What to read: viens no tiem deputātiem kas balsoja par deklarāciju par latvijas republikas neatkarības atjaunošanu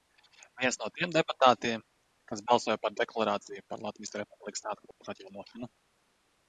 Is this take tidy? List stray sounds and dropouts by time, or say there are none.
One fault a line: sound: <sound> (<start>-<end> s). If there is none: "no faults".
sound: dropout (4.9-5.0 s)